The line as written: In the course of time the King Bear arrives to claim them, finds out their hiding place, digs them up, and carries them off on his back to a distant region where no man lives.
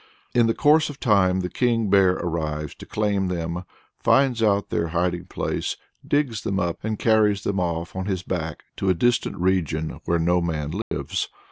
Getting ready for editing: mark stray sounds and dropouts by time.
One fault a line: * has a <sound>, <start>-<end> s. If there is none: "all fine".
* has a dropout, 10.8-10.9 s